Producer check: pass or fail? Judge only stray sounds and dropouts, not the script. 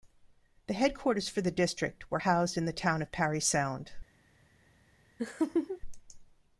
fail